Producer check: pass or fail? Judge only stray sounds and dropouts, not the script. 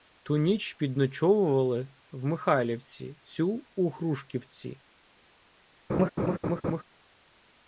fail